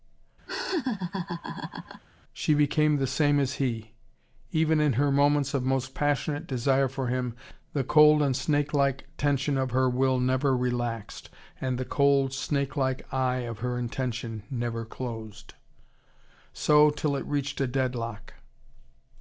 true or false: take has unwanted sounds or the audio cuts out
true